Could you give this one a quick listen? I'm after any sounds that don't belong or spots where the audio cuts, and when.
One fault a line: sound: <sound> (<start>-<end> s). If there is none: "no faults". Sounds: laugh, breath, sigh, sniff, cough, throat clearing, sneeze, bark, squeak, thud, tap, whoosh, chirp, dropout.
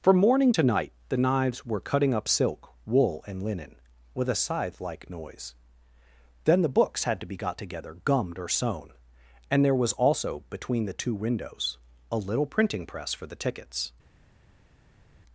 no faults